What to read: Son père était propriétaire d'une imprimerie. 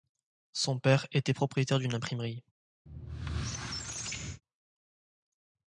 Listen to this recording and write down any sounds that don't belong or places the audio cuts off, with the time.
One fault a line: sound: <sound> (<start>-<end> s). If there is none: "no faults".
sound: squeak (2.9-4.4 s)